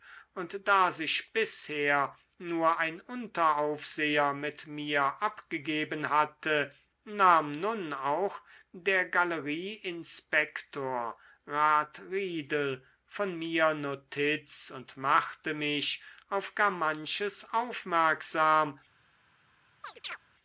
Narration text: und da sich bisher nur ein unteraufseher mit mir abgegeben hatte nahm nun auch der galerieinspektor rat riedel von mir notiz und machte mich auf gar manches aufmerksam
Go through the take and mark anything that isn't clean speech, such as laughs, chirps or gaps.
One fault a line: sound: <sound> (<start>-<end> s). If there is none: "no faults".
sound: chirp (19.8-20.2 s)